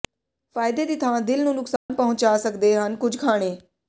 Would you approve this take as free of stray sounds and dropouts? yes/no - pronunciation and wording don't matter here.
no